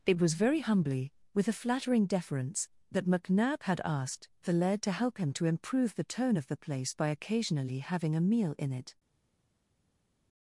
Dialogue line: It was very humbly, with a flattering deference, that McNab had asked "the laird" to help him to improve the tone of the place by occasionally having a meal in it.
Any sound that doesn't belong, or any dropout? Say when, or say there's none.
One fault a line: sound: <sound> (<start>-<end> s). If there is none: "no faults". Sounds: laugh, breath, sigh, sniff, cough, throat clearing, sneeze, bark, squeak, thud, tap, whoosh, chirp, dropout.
no faults